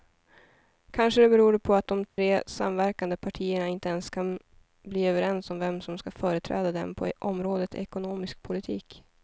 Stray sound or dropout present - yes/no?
yes